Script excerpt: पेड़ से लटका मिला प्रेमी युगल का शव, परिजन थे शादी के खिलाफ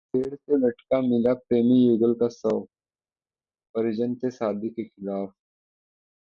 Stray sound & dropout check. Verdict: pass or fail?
pass